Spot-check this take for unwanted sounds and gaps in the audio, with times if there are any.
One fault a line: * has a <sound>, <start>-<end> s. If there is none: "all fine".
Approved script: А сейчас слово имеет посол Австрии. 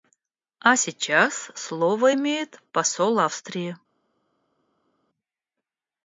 all fine